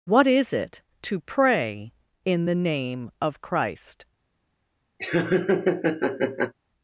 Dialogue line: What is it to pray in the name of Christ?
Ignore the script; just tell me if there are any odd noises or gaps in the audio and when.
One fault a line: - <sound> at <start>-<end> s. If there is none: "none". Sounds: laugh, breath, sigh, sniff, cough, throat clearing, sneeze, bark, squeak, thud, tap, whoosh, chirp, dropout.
- laugh at 5.0-6.5 s